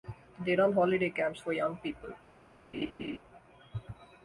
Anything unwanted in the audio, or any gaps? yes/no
yes